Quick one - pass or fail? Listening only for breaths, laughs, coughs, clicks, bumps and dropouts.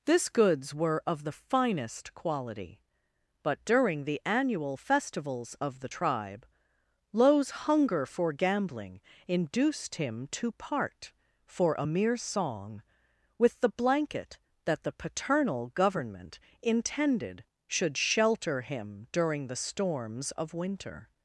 pass